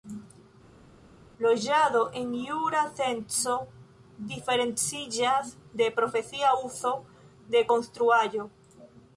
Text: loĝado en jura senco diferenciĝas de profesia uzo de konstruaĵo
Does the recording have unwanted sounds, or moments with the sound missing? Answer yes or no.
no